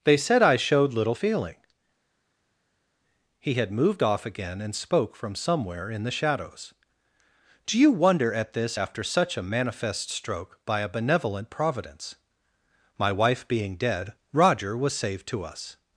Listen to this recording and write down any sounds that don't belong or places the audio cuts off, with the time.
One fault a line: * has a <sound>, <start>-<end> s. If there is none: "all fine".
all fine